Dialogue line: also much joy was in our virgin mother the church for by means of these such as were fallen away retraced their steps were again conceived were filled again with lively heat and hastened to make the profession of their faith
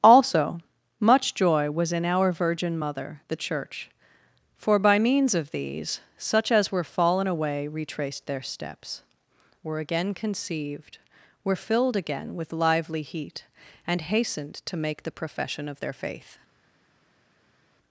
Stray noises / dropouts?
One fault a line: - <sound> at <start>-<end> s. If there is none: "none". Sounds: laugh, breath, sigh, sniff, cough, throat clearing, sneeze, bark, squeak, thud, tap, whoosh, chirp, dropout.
none